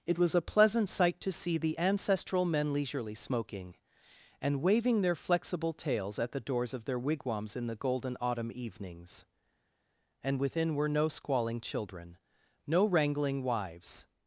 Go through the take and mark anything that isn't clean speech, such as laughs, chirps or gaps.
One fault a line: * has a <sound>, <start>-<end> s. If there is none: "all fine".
all fine